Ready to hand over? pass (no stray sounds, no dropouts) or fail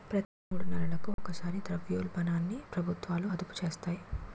fail